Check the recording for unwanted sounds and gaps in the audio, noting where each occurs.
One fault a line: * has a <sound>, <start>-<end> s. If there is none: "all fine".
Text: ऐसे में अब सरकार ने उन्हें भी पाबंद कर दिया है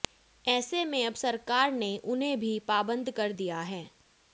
all fine